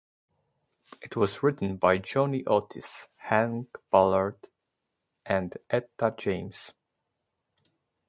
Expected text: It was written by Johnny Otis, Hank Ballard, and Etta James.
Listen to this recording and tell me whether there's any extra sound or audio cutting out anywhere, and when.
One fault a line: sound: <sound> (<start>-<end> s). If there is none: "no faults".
no faults